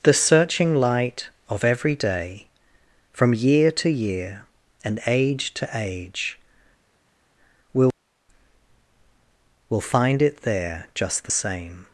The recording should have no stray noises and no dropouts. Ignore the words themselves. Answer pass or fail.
pass